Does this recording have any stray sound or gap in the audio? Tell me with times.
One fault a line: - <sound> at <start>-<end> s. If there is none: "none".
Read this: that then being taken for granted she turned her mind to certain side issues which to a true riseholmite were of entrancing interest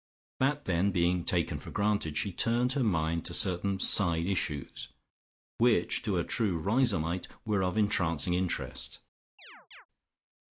- chirp at 9.4-9.9 s